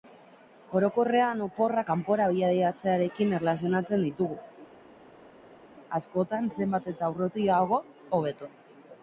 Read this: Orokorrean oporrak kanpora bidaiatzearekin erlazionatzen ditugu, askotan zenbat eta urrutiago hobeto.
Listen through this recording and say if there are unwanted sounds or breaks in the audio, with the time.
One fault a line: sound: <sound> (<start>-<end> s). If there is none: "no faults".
no faults